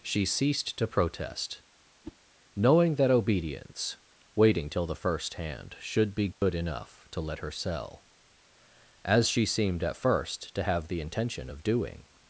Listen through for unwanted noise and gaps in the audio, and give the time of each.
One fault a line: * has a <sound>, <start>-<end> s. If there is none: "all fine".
* has a whoosh, 2.0-2.2 s
* has a dropout, 6.3-6.4 s